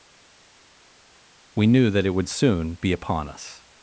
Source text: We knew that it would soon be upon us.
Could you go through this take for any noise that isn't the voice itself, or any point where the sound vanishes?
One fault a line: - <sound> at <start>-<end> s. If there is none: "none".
none